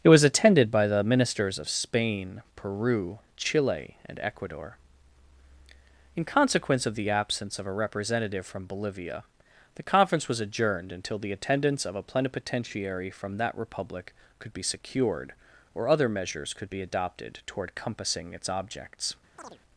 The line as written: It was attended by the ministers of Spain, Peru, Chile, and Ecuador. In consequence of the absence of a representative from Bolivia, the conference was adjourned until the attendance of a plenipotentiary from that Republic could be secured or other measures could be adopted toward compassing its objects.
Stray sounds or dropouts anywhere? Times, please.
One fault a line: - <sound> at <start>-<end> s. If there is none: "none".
- chirp at 19.4-19.6 s